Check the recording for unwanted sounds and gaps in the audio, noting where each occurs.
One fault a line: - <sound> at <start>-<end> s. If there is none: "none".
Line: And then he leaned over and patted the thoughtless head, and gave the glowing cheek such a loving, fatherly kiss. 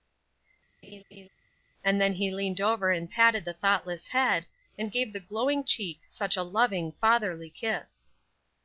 - laugh at 0.8-1.3 s